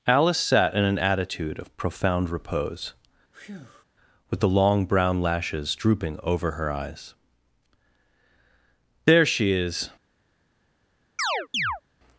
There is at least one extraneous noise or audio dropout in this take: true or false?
true